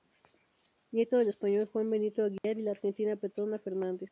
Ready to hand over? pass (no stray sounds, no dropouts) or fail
fail